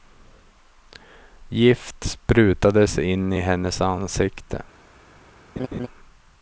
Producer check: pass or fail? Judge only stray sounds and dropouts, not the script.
fail